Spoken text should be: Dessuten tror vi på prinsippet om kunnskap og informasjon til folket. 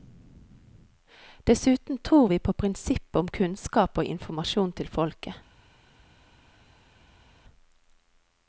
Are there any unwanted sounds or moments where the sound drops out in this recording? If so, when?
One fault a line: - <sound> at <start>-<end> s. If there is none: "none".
none